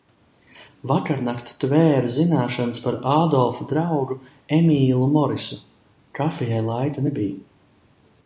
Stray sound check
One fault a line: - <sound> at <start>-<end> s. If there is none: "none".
none